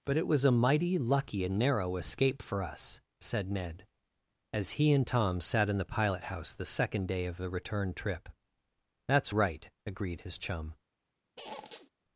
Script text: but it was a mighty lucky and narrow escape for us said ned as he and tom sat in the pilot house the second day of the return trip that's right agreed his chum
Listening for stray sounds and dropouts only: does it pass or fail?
fail